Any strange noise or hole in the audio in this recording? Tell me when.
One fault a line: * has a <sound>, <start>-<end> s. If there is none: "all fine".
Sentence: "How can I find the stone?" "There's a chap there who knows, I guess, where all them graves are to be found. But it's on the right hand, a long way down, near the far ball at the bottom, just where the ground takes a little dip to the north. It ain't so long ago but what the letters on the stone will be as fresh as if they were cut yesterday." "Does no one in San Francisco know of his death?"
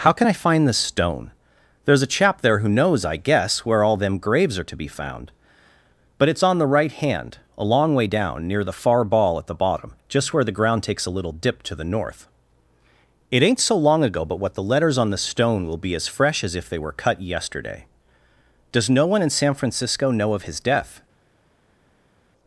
all fine